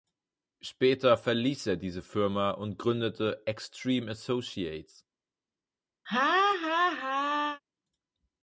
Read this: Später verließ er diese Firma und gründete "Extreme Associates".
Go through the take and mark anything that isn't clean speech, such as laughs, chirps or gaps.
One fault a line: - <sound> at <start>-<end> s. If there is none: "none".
- laugh at 6.1-7.6 s